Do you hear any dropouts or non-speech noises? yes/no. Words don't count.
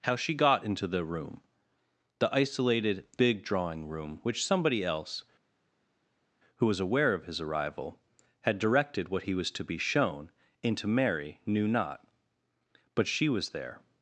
no